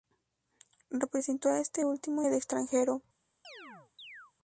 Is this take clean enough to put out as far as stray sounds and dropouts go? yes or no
no